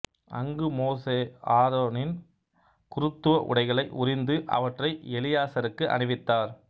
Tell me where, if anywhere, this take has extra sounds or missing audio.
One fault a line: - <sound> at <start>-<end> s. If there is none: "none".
none